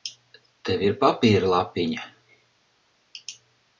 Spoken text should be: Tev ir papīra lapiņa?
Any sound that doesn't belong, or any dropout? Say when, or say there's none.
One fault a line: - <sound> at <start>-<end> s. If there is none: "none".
none